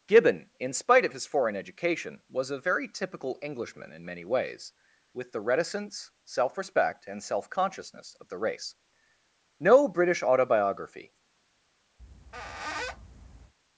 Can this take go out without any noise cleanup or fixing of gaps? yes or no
no